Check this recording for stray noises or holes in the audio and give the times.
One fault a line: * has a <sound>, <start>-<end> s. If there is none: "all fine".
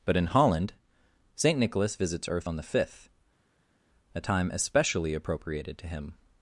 all fine